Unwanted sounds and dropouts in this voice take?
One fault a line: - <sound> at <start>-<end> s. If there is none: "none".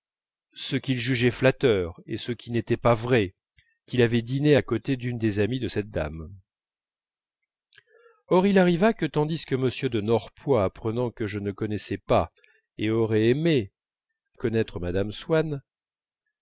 none